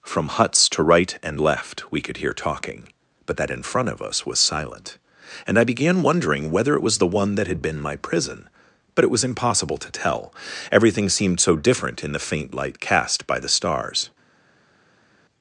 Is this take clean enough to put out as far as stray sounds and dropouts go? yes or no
yes